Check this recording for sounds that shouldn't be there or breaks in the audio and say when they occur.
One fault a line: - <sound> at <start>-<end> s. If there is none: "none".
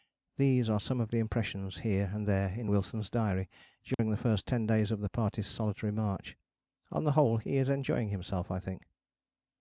- dropout at 3.9-4.0 s